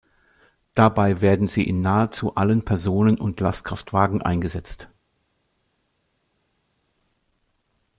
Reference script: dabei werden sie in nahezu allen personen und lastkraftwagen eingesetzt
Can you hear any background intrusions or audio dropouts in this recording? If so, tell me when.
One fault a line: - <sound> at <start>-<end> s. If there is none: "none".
none